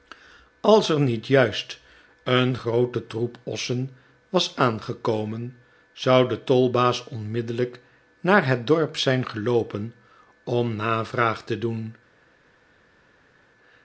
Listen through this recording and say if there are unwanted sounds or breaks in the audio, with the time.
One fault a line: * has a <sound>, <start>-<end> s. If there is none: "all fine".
all fine